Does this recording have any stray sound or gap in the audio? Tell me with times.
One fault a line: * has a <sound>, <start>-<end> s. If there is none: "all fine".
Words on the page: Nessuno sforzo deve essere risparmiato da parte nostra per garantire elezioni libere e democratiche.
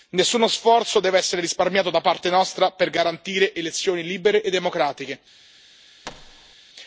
* has a thud, 6.0-6.6 s